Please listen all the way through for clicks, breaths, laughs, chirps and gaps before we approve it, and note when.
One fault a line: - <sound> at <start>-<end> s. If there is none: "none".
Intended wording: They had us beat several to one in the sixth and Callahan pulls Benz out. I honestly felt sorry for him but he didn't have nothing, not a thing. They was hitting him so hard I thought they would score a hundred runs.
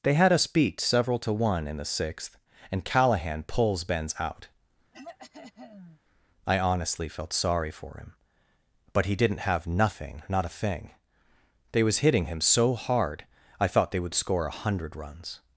- throat clearing at 4.9-6.0 s